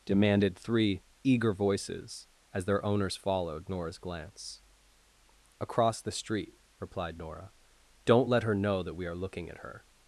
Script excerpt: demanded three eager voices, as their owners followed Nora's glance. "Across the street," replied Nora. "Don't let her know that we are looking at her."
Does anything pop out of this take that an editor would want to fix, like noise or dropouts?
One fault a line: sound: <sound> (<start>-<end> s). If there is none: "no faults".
no faults